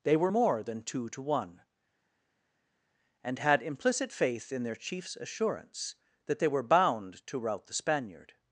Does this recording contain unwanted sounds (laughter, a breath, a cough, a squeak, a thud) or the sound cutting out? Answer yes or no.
no